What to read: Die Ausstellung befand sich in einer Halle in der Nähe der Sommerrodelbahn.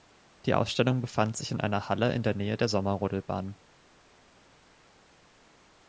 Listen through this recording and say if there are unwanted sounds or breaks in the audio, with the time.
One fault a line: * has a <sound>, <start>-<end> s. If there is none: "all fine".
all fine